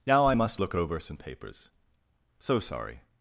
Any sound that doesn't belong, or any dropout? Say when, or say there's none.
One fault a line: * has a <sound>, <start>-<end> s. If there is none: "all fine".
all fine